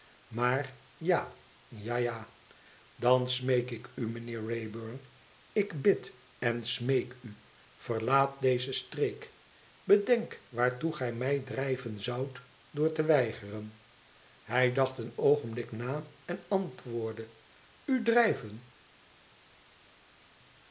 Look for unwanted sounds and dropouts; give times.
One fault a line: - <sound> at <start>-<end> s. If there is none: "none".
none